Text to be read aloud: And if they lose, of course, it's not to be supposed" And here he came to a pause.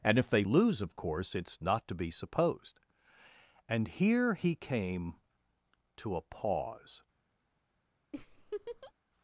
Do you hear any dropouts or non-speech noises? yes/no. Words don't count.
yes